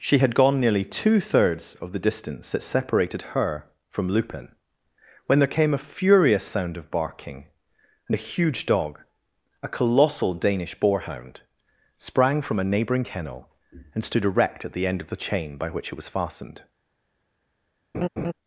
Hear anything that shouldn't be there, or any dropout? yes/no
yes